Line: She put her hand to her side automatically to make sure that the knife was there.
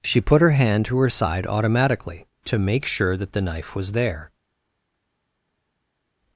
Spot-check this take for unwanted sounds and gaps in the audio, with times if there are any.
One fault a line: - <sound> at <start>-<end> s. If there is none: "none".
none